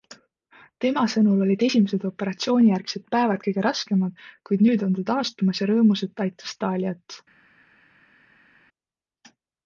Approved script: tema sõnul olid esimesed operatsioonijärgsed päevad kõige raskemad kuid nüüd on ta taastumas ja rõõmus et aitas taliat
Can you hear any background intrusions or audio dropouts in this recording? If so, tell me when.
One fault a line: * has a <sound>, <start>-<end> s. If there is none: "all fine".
all fine